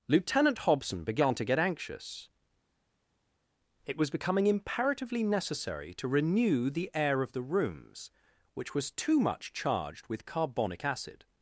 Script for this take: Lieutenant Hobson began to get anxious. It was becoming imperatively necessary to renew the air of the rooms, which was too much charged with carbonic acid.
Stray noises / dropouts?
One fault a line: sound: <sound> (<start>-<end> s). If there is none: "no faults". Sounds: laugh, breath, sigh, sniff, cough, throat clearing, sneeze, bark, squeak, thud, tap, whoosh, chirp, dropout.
no faults